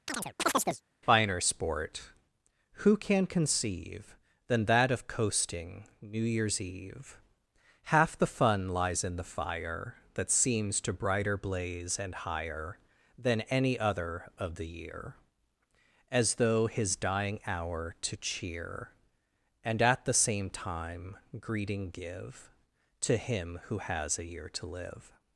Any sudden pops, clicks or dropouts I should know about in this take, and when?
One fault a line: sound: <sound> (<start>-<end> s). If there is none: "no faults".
sound: chirp (0.1-0.8 s)